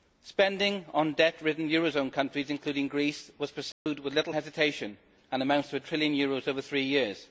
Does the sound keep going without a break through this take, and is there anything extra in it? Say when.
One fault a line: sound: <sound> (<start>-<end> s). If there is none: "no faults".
sound: dropout (3.7-3.9 s)